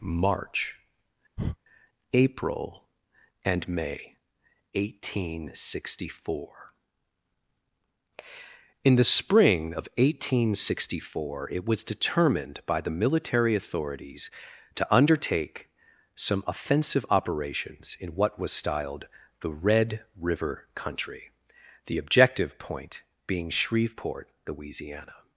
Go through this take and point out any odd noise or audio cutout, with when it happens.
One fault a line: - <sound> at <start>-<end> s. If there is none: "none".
- breath at 1.4-1.6 s